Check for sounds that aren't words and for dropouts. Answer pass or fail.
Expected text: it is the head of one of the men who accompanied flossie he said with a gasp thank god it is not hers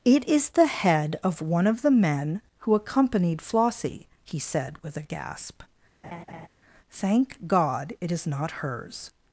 fail